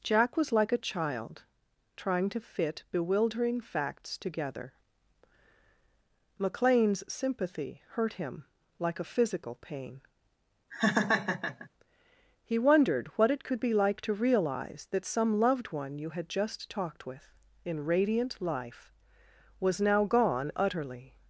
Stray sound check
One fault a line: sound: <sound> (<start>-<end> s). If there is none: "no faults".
sound: laugh (10.7-11.7 s)